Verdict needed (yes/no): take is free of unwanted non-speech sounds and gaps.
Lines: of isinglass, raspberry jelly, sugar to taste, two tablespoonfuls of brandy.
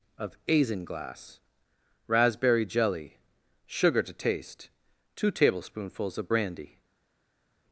yes